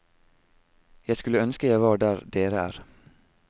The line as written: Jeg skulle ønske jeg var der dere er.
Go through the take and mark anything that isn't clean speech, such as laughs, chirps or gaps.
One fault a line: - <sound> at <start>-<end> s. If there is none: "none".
none